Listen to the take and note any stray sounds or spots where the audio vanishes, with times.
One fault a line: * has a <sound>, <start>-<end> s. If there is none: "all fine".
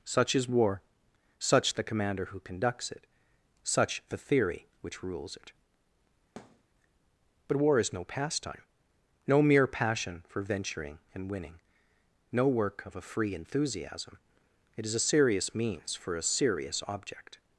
* has a thud, 6.4-6.6 s